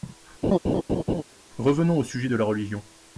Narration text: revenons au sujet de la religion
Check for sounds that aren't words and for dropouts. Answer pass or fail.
fail